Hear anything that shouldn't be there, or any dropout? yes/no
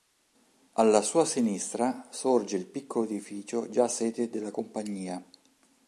no